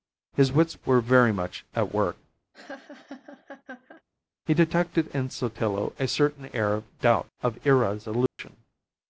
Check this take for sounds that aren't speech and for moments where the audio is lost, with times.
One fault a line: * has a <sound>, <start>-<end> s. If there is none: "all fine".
* has a laugh, 2.5-4.0 s
* has a dropout, 8.3-8.4 s